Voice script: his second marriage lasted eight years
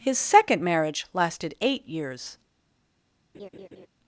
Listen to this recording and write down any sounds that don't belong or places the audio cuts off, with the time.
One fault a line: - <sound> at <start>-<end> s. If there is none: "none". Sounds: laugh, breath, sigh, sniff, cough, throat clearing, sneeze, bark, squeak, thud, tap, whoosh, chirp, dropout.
- laugh at 3.3-3.9 s